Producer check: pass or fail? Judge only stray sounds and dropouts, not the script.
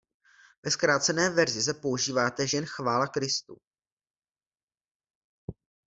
pass